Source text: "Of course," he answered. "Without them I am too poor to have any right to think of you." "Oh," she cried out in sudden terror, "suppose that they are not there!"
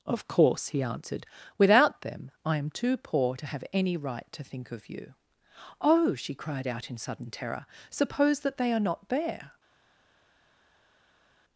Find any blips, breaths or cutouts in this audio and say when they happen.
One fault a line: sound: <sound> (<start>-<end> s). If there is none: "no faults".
no faults